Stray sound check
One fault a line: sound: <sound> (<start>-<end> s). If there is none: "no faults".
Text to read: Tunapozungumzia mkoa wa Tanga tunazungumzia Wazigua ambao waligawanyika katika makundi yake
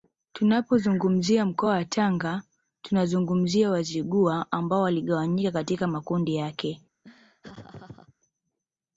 sound: laugh (7.0-8.1 s)